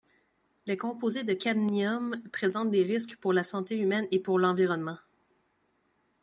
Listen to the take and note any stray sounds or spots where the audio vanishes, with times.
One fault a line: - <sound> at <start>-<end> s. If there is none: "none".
none